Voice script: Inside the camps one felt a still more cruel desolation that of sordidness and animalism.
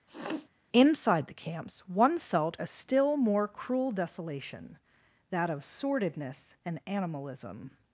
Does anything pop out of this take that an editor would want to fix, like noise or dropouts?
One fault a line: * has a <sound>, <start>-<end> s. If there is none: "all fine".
* has a sniff, 0.1-0.5 s